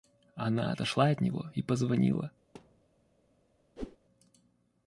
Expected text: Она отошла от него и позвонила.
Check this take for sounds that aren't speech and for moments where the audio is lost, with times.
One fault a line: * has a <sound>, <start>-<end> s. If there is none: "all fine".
* has a thud, 2.5-2.9 s
* has a whoosh, 3.8-4.0 s